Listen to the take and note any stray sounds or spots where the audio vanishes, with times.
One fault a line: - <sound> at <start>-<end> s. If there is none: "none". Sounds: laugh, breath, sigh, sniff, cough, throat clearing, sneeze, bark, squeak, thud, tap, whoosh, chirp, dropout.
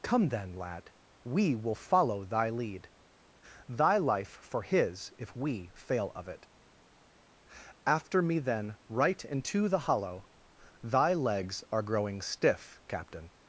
none